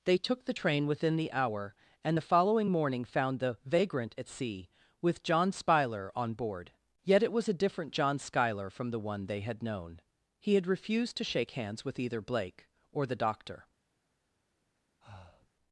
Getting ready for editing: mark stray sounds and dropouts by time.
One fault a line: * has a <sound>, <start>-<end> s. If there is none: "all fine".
* has a breath, 15.0-15.5 s